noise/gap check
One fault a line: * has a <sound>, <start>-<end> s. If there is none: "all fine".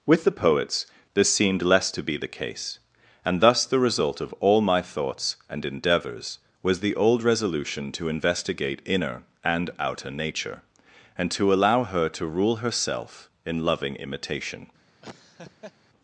* has a laugh, 15.0-15.7 s